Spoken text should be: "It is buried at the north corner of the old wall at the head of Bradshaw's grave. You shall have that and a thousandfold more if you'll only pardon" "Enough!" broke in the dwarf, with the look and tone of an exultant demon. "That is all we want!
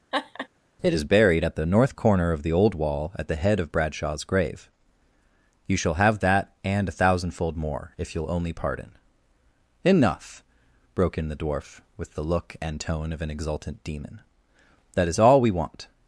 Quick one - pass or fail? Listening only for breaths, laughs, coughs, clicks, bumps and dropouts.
fail